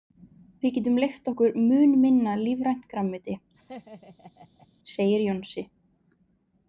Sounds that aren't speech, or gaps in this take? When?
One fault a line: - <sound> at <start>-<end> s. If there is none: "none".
- laugh at 3.6-4.7 s